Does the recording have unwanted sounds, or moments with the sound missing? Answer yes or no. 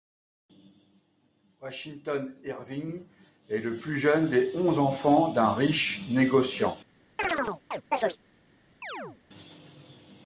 yes